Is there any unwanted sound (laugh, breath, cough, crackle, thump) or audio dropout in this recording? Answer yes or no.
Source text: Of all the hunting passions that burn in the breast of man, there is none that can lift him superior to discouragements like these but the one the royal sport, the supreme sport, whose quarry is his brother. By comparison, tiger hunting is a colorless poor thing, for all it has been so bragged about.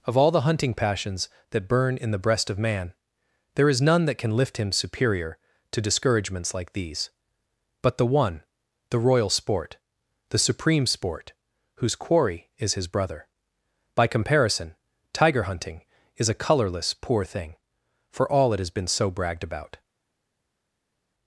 no